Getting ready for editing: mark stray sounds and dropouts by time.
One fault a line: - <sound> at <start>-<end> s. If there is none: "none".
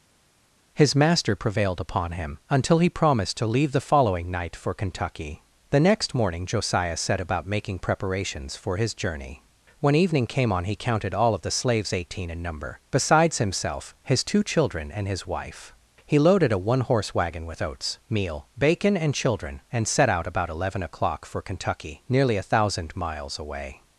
none